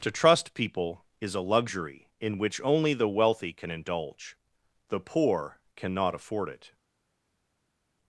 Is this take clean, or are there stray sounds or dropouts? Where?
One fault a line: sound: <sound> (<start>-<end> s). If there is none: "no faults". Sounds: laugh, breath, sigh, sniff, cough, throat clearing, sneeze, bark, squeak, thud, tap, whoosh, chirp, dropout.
no faults